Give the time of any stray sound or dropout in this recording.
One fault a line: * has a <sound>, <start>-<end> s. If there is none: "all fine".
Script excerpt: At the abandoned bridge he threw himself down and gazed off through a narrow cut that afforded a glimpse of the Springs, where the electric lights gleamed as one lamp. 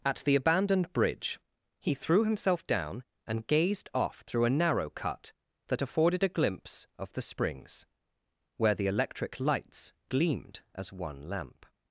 all fine